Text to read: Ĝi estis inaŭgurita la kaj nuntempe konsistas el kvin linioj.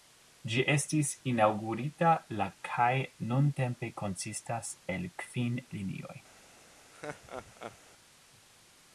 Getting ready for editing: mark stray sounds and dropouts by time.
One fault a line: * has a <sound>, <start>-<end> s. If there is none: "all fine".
* has a laugh, 6.9-7.8 s